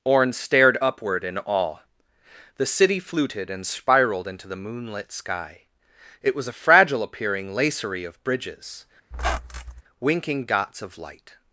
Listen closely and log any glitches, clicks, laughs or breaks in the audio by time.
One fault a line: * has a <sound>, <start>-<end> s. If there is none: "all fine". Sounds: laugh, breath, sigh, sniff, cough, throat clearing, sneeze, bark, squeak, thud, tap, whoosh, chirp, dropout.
* has a squeak, 9.1-9.8 s